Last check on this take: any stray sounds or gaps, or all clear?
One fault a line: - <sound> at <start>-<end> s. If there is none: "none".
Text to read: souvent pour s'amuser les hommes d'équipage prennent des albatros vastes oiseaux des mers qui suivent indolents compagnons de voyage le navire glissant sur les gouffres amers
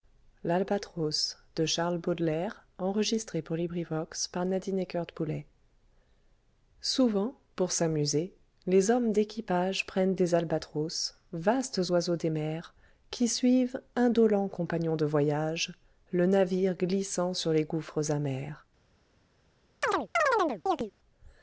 - chirp at 19.8-20.9 s